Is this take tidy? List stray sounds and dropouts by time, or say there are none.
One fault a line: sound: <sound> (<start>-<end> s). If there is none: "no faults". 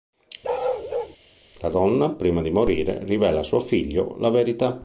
sound: bark (0.4-1.2 s)